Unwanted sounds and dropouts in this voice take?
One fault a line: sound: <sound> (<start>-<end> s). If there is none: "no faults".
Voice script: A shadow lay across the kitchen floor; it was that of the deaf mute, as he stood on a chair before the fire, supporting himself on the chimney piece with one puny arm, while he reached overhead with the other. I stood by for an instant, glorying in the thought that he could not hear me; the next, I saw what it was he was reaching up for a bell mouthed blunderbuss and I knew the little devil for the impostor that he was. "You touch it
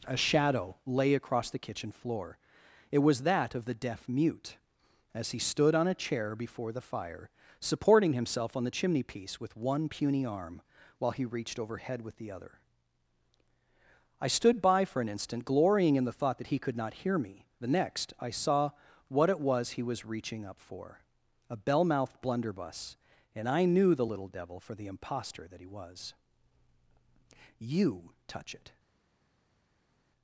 no faults